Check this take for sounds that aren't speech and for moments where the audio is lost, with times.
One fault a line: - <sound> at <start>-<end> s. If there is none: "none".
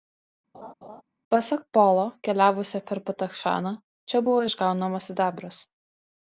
- laugh at 0.5-1.0 s